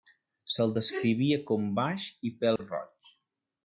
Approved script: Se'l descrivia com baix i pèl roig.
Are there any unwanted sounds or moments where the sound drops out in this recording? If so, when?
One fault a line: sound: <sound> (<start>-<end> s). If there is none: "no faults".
sound: dropout (2.6-2.6 s)